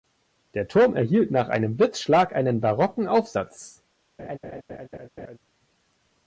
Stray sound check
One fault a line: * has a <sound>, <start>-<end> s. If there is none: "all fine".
* has a laugh, 4.2-5.4 s